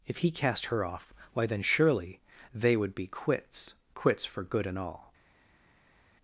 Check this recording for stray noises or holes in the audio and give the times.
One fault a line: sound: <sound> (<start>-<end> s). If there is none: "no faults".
no faults